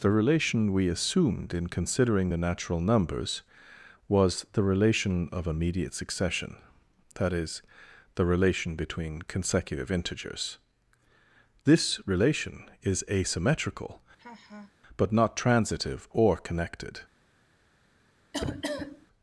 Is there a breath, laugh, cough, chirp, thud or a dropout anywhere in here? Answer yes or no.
yes